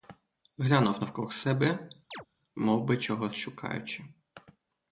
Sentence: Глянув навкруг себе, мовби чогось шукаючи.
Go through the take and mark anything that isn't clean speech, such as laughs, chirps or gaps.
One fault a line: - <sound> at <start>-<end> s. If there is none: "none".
- chirp at 2.1-2.3 s